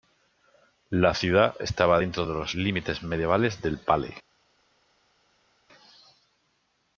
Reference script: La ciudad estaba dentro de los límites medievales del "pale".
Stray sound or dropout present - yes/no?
no